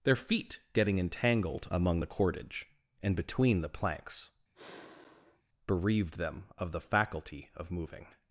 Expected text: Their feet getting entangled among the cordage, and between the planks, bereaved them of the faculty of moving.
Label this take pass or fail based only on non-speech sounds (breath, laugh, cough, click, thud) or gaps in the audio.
fail